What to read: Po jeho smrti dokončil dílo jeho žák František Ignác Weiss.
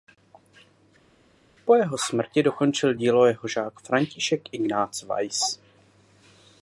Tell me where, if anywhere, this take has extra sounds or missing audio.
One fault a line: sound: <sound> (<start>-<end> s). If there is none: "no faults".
no faults